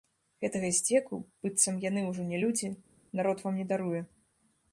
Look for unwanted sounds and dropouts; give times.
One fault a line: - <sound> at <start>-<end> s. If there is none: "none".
none